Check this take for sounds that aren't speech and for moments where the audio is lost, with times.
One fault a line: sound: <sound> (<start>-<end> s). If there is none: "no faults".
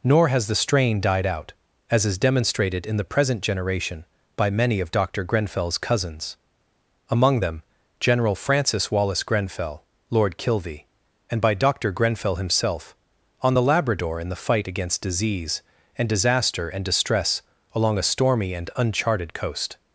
no faults